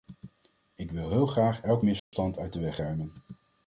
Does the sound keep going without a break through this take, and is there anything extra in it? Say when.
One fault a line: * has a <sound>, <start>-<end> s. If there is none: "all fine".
* has a dropout, 2.0-2.1 s